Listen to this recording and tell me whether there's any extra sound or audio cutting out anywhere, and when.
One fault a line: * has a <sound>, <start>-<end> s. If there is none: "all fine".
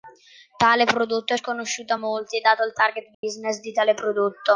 * has a dropout, 3.1-3.2 s